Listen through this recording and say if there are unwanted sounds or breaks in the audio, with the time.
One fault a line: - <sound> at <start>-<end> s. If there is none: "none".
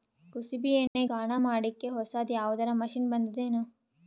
- dropout at 0.9-1.0 s